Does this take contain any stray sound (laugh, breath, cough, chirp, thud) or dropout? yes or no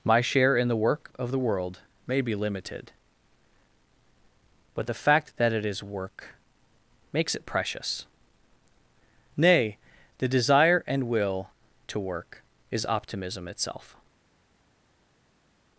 no